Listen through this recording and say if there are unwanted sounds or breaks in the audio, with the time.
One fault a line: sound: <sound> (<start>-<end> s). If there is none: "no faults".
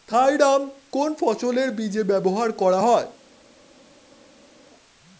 no faults